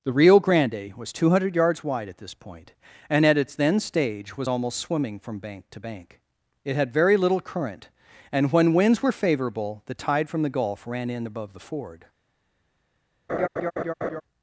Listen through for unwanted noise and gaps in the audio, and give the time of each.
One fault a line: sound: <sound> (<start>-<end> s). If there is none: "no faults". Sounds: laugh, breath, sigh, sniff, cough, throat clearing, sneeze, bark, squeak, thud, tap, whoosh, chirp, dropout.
sound: laugh (13.3-14.2 s)